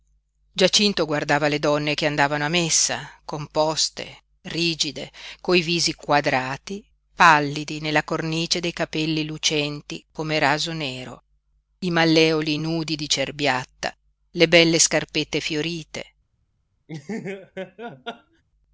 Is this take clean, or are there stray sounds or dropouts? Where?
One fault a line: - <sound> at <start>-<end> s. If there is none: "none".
- laugh at 16.9-18.4 s